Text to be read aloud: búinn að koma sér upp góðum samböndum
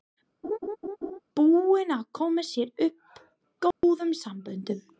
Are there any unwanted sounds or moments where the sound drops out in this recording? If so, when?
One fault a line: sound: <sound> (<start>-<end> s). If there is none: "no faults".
sound: laugh (0.4-1.2 s)
sound: dropout (3.7-3.8 s)